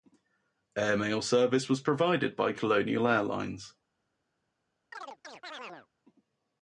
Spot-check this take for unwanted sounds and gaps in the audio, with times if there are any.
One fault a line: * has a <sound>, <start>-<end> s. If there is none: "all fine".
* has a chirp, 4.9-5.9 s